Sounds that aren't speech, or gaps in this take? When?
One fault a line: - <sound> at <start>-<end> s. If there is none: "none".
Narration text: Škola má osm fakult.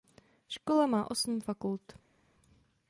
none